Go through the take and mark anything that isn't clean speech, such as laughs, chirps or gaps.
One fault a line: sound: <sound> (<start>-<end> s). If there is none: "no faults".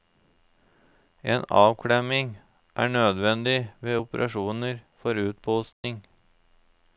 sound: dropout (5.7-5.8 s)